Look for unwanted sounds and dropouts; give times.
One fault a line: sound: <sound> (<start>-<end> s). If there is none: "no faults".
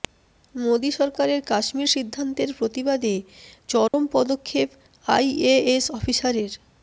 sound: dropout (3.9-3.9 s)